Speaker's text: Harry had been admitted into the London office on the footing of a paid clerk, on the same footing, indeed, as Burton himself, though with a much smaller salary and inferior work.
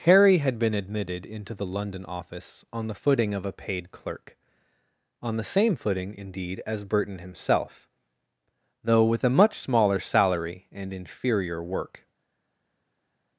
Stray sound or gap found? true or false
false